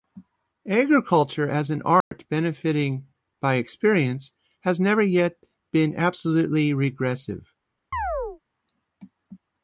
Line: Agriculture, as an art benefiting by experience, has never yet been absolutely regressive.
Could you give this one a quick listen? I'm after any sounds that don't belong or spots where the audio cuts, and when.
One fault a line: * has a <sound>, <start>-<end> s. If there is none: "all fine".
* has a dropout, 2.0-2.1 s
* has a chirp, 7.9-8.4 s